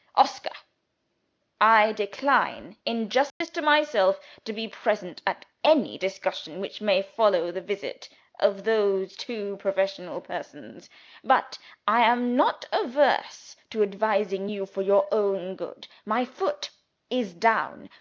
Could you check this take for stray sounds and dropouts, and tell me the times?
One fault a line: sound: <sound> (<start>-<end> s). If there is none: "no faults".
sound: dropout (3.3-3.4 s)